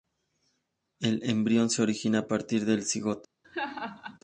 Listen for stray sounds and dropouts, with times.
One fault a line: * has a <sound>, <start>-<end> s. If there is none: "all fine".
* has a laugh, 3.4-4.2 s